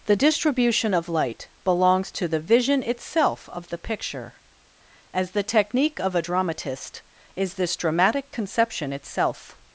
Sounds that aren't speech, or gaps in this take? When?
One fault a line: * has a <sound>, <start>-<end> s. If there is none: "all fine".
all fine